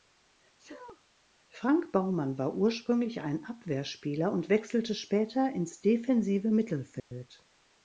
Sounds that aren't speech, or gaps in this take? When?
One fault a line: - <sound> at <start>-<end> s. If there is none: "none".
- sneeze at 0.6-1.0 s
- dropout at 7.0-7.1 s